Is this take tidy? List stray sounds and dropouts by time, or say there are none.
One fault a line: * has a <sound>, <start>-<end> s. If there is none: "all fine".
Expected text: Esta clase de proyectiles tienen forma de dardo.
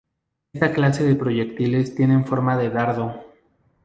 all fine